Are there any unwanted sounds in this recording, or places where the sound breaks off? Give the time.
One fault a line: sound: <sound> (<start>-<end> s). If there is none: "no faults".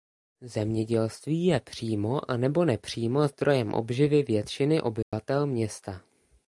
sound: dropout (5.0-5.1 s)